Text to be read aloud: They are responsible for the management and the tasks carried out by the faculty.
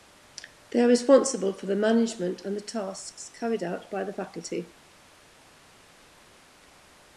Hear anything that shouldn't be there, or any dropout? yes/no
no